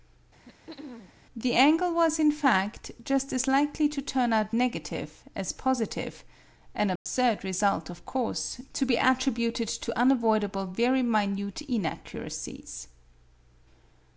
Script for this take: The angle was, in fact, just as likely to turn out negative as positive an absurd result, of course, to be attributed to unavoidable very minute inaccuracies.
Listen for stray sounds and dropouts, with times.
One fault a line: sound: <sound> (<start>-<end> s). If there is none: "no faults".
sound: throat clearing (0.4-1.1 s)
sound: dropout (7.0-7.1 s)